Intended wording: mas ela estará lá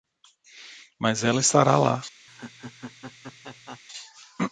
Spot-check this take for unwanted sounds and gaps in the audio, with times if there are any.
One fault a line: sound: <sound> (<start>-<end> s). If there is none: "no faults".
sound: laugh (2.3-3.8 s)